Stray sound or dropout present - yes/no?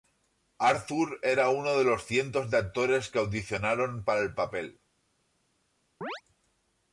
yes